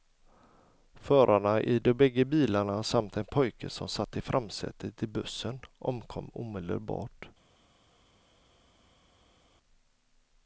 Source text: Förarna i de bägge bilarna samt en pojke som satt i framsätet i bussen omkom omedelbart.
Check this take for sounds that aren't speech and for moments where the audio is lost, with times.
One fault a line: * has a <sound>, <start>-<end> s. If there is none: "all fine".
all fine